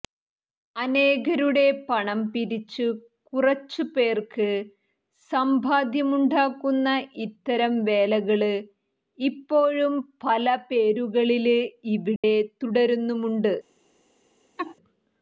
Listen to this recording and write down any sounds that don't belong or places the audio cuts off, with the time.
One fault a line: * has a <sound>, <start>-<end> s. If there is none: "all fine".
* has a dropout, 12.2-12.2 s
* has a laugh, 14.6-14.8 s